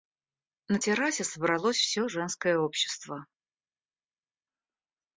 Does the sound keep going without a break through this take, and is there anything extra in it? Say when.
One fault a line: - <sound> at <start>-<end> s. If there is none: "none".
none